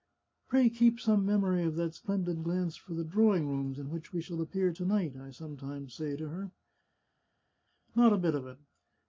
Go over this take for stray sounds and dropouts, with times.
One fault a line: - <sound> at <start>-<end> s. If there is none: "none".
none